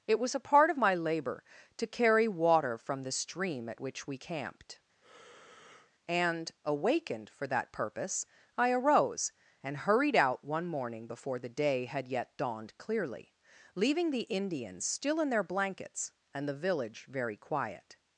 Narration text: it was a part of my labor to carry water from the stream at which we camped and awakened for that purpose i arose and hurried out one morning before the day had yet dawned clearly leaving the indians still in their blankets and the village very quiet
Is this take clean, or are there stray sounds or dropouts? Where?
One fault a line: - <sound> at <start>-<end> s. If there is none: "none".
- breath at 5.0-5.9 s